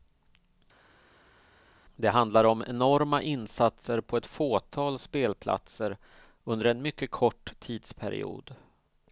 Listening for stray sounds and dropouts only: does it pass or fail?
pass